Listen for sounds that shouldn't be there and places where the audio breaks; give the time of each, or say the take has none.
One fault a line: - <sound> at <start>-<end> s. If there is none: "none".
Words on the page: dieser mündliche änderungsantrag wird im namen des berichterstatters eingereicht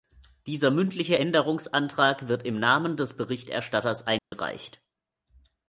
- dropout at 4.2-4.3 s